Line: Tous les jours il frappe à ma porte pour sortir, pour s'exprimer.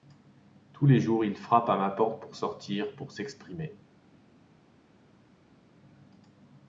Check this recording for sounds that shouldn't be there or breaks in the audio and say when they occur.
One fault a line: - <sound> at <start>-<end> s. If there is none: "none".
none